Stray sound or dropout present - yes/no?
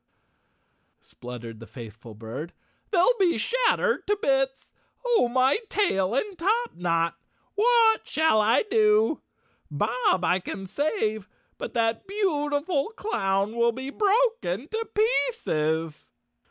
no